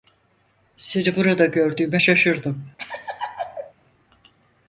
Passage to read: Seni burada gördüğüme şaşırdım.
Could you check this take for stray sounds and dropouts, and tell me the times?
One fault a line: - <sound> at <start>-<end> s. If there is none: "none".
- laugh at 2.8-3.7 s